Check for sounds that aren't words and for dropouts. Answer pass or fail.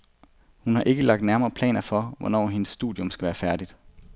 pass